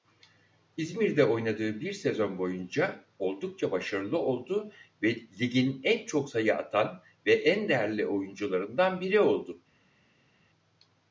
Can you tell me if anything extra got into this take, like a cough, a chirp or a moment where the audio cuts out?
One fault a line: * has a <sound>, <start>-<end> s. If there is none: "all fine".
all fine